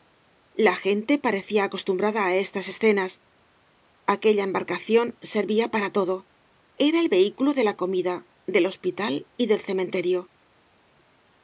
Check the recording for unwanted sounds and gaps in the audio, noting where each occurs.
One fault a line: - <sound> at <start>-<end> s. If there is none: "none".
none